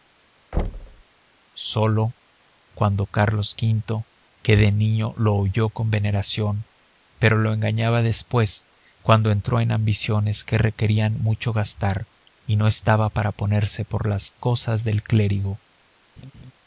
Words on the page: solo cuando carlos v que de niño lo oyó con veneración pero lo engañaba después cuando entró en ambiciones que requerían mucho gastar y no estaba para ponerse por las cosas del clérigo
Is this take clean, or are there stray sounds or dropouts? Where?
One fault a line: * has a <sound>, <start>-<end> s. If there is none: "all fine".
* has a thud, 0.5-1.0 s
* has a laugh, 16.2-16.5 s